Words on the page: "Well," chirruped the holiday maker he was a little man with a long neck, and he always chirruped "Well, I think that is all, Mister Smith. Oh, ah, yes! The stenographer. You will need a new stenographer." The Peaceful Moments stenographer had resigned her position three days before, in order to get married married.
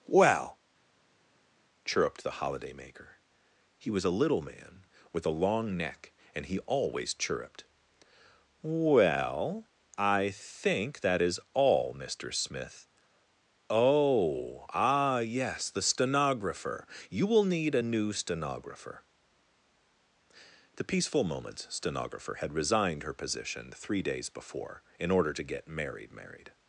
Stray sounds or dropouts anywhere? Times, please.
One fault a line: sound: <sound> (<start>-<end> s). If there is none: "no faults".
no faults